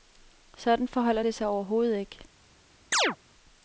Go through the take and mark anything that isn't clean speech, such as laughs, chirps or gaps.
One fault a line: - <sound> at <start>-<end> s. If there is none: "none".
- chirp at 2.9-3.2 s